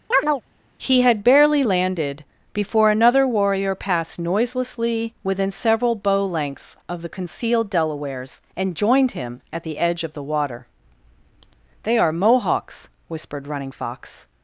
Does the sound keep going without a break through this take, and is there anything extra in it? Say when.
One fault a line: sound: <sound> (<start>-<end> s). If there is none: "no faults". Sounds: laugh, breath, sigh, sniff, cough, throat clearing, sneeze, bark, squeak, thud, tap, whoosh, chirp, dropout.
sound: chirp (0.1-0.4 s)